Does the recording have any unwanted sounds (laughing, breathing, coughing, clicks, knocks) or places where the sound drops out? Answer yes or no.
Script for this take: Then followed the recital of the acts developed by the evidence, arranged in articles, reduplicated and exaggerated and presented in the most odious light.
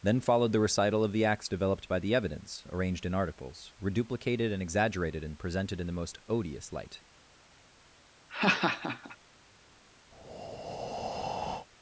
yes